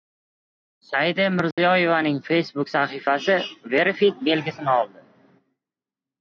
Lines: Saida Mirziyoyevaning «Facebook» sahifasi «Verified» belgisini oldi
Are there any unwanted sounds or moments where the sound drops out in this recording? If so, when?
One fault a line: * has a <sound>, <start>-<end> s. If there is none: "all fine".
* has a dropout, 1.5-1.6 s